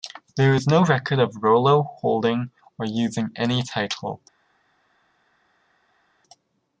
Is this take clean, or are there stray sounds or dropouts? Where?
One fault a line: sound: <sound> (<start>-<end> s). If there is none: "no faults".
no faults